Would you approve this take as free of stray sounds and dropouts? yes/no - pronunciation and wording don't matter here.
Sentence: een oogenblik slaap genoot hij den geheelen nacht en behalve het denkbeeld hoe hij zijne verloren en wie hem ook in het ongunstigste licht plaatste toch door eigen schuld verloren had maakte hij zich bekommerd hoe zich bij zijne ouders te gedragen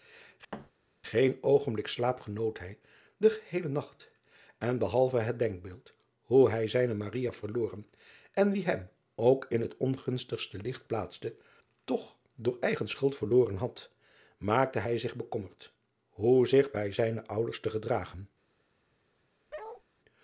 no